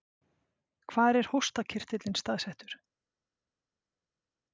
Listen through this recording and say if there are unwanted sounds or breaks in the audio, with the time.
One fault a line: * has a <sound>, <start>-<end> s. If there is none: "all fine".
all fine